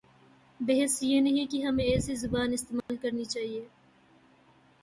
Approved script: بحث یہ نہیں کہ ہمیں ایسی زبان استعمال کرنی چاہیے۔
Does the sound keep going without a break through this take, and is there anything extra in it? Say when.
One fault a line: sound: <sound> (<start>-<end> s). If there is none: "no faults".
sound: dropout (2.8-2.9 s)